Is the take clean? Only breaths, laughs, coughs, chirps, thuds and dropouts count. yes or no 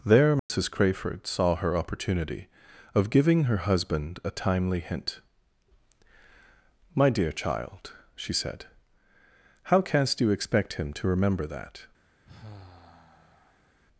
no